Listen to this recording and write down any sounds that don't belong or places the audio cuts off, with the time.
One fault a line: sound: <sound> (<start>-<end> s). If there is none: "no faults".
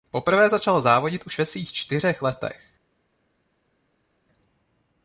no faults